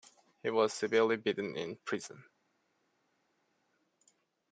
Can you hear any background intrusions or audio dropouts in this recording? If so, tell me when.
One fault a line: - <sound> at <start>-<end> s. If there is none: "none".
none